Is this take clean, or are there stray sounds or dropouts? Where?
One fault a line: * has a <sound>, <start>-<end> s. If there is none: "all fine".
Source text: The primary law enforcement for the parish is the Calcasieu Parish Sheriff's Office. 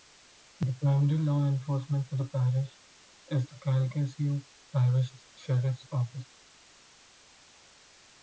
all fine